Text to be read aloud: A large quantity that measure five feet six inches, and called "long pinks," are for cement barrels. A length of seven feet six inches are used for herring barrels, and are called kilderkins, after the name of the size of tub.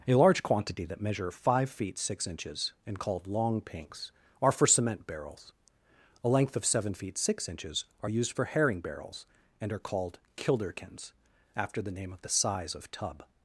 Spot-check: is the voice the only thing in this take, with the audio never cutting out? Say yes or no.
yes